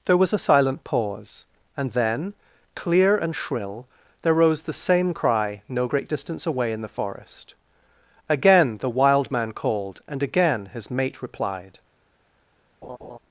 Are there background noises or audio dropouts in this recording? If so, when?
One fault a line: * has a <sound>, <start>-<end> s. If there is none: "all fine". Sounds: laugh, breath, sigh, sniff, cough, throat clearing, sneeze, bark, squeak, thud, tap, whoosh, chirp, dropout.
* has a laugh, 12.8-13.2 s